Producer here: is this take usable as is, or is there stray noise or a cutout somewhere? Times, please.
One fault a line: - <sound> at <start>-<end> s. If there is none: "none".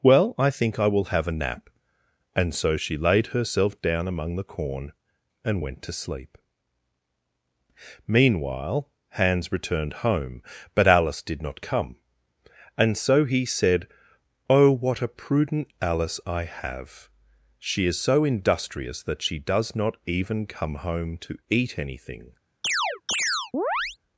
- chirp at 22.6-24.0 s